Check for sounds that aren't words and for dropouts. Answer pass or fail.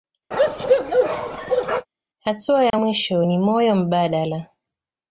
fail